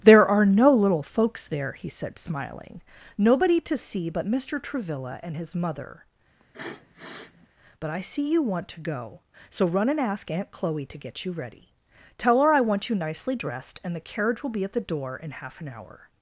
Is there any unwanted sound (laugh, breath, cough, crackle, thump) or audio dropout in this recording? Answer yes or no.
yes